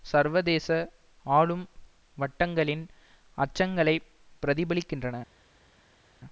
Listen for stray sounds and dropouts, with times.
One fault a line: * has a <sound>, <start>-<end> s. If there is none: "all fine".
all fine